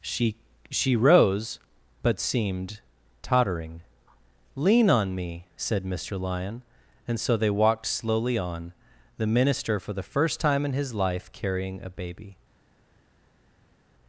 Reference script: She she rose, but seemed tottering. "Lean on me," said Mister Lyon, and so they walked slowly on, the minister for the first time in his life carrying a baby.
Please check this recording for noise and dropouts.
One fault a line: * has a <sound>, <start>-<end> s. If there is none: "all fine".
all fine